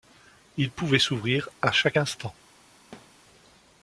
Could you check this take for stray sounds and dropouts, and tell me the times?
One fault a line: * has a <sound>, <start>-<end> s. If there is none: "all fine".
* has a thud, 2.9-3.2 s